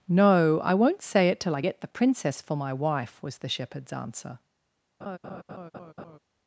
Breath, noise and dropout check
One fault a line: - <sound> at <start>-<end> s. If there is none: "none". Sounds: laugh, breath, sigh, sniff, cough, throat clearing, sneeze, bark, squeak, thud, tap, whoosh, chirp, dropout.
- laugh at 5.0-6.2 s